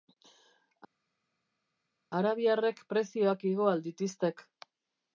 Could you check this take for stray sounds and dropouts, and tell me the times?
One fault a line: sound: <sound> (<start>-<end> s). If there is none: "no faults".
no faults